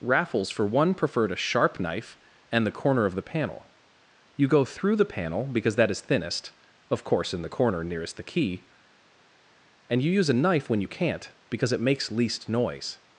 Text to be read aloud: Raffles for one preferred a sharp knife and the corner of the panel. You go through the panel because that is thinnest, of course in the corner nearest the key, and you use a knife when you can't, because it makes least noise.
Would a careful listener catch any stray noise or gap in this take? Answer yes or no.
no